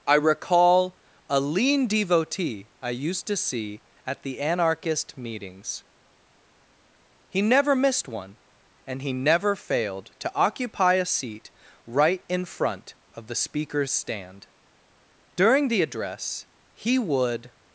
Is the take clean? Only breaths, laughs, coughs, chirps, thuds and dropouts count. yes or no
yes